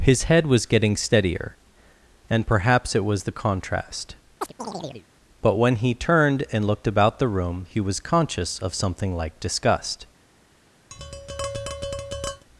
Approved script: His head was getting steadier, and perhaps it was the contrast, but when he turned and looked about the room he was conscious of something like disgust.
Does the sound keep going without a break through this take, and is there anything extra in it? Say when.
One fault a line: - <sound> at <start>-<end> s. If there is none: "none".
- chirp at 4.4-5.1 s
- tap at 10.9-12.4 s